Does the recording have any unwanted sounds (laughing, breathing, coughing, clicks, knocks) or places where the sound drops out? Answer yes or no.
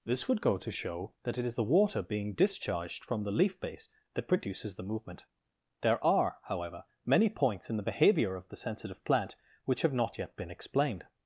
no